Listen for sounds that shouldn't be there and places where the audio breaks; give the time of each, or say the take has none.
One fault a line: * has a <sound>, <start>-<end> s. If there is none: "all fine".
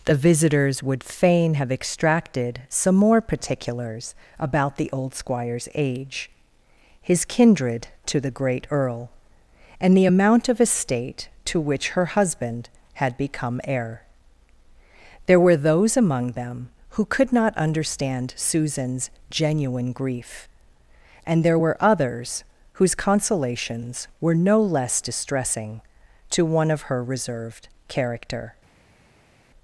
all fine